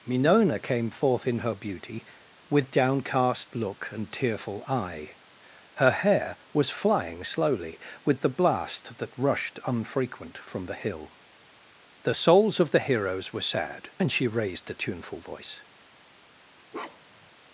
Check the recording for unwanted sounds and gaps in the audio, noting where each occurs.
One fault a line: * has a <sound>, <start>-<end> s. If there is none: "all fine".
* has a bark, 16.7-17.3 s